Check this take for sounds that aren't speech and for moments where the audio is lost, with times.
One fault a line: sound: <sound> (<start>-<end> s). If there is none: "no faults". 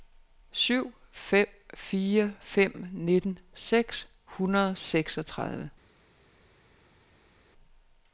no faults